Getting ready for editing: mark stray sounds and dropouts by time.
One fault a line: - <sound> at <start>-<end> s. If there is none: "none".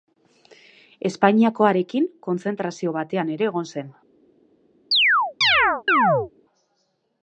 - chirp at 4.9-6.3 s